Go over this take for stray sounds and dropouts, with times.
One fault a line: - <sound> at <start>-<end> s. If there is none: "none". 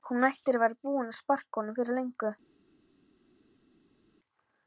none